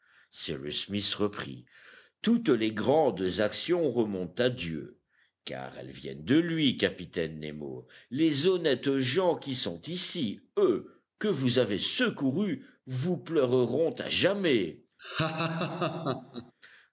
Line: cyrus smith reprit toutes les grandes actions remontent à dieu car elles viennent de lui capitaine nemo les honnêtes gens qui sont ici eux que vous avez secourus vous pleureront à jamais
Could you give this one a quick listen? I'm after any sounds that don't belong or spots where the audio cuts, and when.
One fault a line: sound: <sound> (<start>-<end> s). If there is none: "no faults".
sound: laugh (15.0-16.5 s)